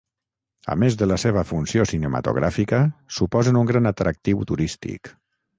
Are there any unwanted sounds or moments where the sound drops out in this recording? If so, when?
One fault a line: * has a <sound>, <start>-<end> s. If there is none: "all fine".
all fine